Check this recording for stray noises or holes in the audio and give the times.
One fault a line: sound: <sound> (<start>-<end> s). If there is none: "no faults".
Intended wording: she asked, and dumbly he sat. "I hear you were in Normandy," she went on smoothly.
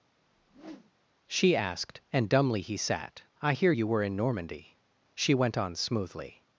sound: whoosh (0.2-0.9 s)